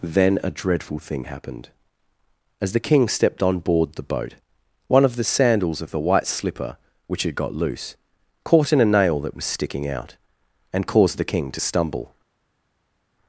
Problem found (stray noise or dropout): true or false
false